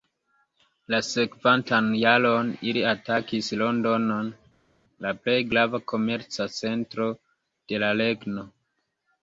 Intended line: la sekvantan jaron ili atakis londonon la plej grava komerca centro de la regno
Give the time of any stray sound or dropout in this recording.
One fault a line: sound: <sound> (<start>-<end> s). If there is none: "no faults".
no faults